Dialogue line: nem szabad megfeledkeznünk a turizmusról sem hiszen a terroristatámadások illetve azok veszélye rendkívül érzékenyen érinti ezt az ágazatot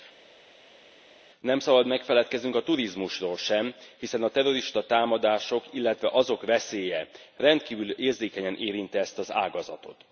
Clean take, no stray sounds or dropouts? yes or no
yes